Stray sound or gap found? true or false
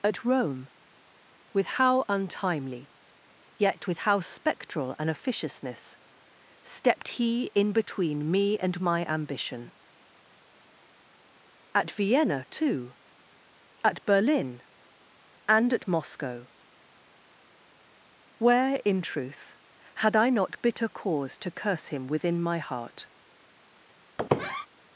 true